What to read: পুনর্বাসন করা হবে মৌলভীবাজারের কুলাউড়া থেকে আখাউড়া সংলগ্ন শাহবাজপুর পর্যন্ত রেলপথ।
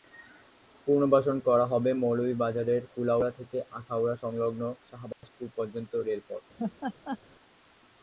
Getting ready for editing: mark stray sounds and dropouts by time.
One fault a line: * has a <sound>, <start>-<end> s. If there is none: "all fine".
* has a dropout, 5.1-5.2 s
* has a laugh, 6.6-7.2 s